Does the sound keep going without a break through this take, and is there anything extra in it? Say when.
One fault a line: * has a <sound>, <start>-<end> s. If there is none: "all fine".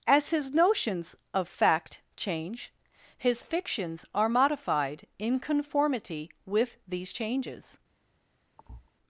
* has a thud, 8.6-8.9 s